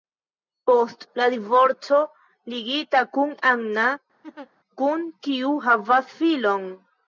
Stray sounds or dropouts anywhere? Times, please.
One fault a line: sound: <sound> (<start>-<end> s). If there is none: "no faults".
sound: laugh (4.2-4.5 s)